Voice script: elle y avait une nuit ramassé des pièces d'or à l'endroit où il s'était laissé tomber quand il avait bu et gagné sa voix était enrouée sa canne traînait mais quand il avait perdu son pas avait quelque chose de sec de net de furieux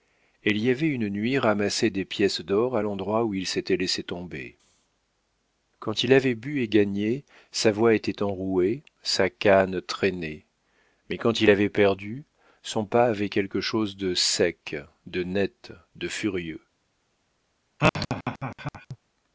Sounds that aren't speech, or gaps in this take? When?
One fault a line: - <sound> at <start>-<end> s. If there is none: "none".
- laugh at 17.8-19.0 s